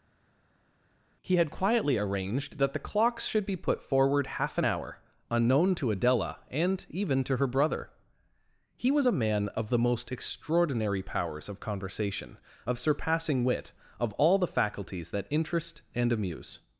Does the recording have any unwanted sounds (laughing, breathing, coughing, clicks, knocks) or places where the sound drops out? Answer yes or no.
no